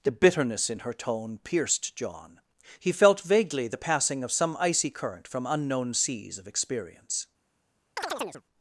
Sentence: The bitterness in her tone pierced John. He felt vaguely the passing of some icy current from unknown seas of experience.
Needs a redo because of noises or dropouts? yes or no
yes